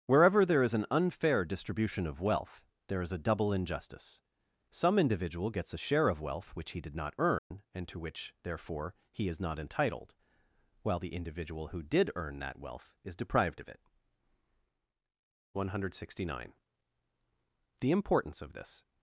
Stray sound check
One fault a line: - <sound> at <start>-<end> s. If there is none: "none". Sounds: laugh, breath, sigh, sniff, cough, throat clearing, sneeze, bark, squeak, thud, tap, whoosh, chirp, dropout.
- dropout at 7.4-7.5 s